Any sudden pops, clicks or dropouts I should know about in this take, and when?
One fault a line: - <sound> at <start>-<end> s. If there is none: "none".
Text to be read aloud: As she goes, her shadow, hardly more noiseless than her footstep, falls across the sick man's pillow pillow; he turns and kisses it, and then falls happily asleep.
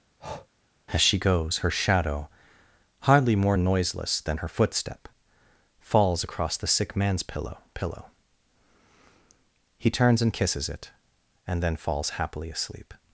- breath at 0.2-0.5 s